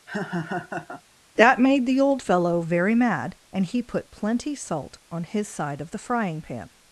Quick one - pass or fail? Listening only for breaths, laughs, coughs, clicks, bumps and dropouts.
fail